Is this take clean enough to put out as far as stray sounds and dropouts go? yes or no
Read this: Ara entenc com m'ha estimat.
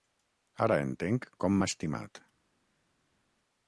yes